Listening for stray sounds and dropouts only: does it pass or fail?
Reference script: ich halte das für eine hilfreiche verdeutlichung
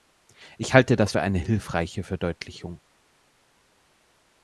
pass